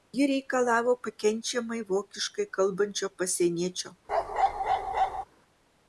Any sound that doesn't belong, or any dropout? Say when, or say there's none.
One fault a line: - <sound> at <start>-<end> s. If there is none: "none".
- bark at 4.1-5.2 s